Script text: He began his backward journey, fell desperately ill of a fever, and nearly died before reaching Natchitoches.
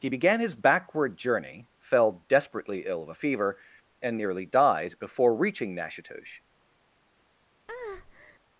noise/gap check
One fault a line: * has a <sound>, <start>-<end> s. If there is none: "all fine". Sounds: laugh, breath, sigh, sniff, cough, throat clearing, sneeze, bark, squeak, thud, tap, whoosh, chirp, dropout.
* has a breath, 7.7-8.4 s